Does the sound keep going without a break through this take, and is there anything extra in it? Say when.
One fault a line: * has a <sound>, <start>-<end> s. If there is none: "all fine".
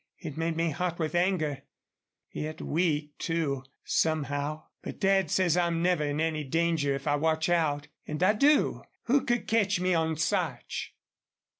all fine